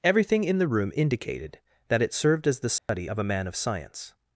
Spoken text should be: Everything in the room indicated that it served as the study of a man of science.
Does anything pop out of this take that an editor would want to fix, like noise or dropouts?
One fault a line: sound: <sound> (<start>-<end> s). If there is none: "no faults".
sound: dropout (2.8-2.9 s)